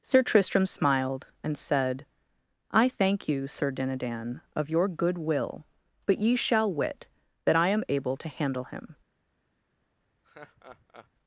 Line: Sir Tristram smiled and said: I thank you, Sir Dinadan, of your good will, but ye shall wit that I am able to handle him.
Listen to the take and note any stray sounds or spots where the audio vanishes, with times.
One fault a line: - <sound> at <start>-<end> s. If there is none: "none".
- laugh at 10.2-11.1 s